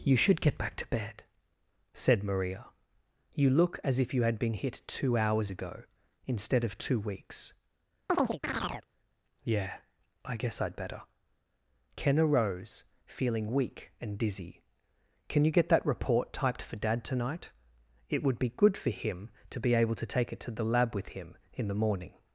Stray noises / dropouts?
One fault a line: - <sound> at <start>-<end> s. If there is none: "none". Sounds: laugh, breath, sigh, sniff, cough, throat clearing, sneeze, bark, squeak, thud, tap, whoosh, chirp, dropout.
- chirp at 8.1-8.9 s